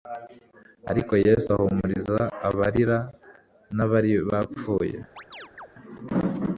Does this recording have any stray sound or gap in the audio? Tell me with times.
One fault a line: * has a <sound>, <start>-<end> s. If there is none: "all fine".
* has a chirp, 5.2-5.7 s